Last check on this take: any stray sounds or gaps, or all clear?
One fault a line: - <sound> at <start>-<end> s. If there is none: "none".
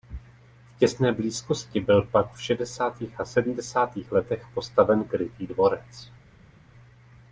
none